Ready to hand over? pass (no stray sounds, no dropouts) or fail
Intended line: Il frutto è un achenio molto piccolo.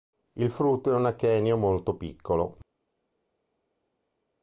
pass